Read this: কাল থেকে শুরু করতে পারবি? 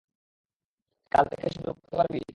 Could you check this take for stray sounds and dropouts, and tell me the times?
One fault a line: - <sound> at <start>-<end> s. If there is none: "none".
none